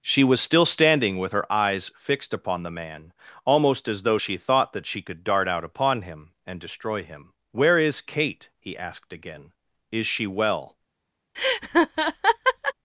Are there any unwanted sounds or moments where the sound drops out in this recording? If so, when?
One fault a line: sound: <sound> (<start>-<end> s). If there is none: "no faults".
sound: laugh (11.3-12.7 s)